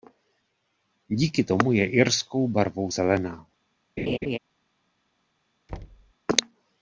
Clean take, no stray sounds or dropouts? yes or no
no